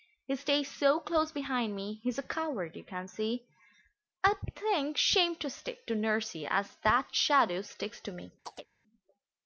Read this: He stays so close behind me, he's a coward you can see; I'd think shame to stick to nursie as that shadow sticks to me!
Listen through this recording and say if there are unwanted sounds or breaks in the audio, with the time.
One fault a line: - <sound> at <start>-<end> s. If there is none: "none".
- chirp at 8.4-8.7 s